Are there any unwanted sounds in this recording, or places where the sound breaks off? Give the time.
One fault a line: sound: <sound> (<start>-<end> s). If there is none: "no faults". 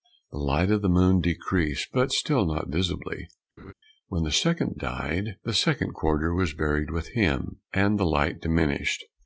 sound: laugh (3.6-3.7 s)